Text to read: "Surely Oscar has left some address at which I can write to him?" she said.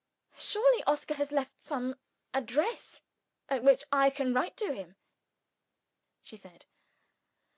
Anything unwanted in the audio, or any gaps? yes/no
no